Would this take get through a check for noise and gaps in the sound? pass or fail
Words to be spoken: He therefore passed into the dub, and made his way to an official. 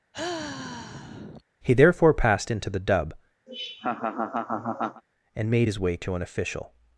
fail